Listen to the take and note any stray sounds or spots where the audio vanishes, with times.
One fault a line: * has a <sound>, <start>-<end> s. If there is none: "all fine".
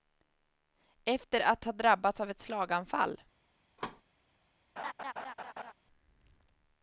* has a thud, 3.8-4.0 s
* has a laugh, 4.8-5.7 s